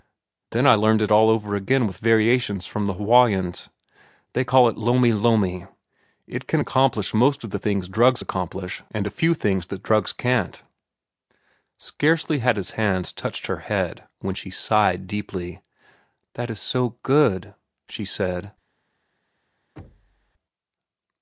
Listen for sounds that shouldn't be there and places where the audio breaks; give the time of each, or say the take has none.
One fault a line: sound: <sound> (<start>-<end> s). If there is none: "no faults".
sound: thud (19.8-20.3 s)